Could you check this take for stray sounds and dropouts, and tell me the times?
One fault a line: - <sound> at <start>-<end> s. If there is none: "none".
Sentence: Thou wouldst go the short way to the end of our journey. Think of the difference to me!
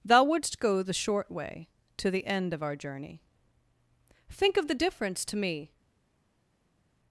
none